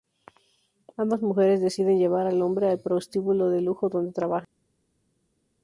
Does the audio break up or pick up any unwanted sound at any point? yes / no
no